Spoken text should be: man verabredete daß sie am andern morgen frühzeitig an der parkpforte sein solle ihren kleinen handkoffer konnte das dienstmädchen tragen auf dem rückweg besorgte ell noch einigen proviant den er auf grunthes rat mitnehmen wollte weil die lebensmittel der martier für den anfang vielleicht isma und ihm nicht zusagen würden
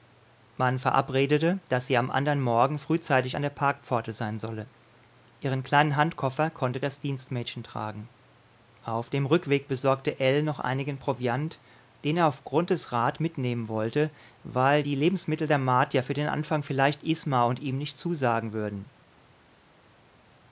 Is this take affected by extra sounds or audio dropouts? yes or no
no